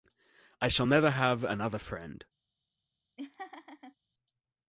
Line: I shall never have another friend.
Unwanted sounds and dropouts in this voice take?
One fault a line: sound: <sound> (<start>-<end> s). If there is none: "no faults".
sound: laugh (3.2-4.0 s)